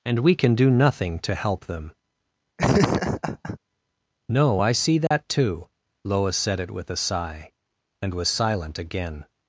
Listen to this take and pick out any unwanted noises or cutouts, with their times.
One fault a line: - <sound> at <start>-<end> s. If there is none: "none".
- laugh at 2.6-3.6 s
- dropout at 5.1-5.1 s